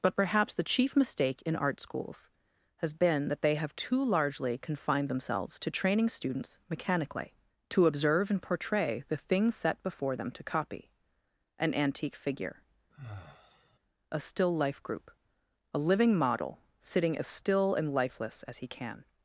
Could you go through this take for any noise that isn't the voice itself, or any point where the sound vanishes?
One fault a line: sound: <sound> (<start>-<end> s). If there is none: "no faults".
sound: sigh (12.9-13.8 s)